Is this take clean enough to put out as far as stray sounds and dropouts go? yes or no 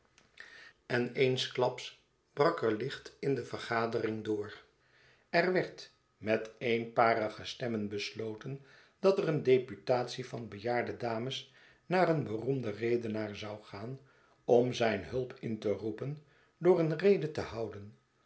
yes